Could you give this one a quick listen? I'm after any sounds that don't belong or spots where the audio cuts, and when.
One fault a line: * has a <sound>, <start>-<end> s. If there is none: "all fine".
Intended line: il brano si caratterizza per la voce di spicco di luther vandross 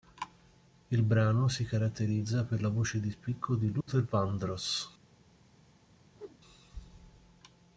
* has a dropout, 3.8-3.9 s
* has a whoosh, 6.2-6.4 s